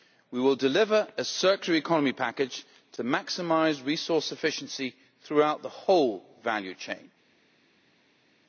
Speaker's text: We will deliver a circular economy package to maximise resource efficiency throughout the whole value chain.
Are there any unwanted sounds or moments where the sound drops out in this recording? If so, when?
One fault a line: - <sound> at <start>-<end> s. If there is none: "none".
none